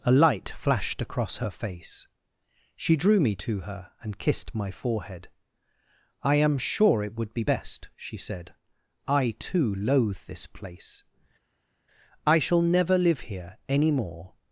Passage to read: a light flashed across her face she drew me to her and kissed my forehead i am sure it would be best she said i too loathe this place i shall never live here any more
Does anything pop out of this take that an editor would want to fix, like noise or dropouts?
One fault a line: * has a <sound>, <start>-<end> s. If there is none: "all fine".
all fine